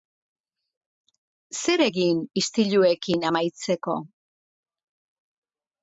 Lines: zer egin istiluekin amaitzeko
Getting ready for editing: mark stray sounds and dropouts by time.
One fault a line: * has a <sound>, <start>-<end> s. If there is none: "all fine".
all fine